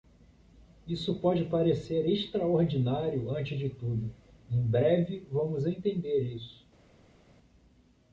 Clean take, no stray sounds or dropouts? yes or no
yes